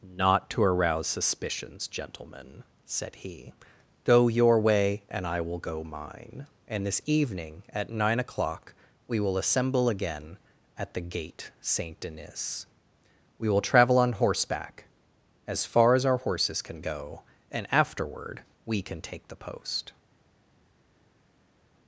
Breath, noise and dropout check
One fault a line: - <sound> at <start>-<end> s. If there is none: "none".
none